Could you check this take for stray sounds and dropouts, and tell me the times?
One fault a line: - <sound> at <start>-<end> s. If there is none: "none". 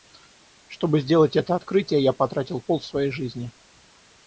none